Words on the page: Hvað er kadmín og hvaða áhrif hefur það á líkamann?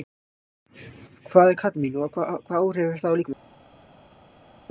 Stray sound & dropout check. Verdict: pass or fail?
pass